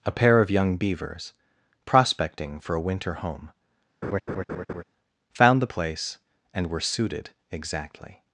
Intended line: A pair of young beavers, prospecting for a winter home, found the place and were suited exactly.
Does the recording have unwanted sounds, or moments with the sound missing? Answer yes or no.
yes